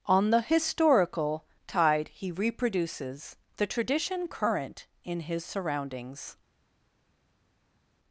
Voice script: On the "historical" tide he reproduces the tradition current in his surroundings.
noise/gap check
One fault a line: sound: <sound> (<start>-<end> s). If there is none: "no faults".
no faults